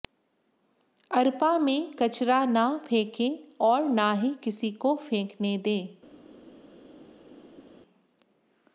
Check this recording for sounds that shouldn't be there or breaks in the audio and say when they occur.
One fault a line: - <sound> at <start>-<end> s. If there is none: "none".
none